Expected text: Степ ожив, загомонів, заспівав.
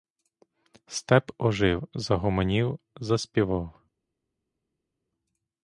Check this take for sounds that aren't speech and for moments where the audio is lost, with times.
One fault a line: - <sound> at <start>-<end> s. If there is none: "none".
none